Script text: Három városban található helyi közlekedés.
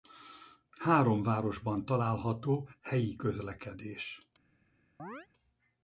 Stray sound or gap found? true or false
true